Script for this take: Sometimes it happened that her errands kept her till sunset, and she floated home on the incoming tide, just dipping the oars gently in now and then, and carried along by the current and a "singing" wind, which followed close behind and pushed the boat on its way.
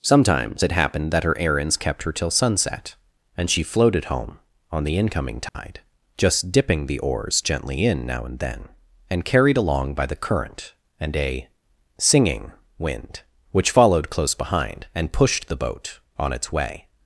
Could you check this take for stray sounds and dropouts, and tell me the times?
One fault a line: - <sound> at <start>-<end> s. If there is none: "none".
- dropout at 5.5-5.5 s